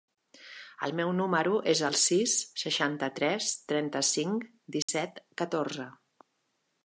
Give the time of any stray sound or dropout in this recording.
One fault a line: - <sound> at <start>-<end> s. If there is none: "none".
- dropout at 4.8-4.9 s